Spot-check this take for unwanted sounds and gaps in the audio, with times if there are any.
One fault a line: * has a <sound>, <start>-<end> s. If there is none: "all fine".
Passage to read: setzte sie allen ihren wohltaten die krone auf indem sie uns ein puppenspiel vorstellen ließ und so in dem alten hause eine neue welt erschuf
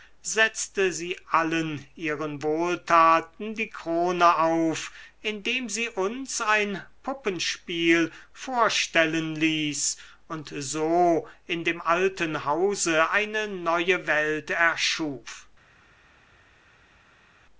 all fine